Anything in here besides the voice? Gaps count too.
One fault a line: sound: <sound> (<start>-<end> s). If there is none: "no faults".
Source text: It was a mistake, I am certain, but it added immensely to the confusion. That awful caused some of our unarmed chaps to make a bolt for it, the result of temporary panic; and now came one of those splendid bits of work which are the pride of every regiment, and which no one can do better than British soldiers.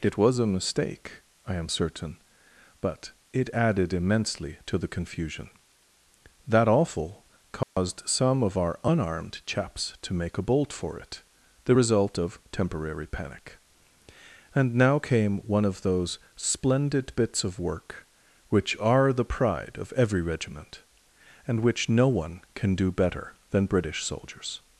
sound: dropout (7.6-7.8 s)